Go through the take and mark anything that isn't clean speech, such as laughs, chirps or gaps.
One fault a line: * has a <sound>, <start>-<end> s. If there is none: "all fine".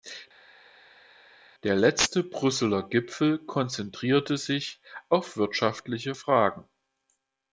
all fine